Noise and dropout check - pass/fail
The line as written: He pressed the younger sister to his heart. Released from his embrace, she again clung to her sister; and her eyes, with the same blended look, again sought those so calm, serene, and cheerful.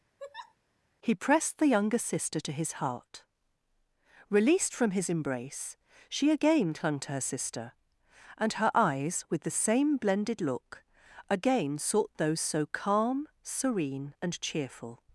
fail